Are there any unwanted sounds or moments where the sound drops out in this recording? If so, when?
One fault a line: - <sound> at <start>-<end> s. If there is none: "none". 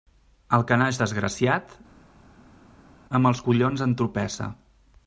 none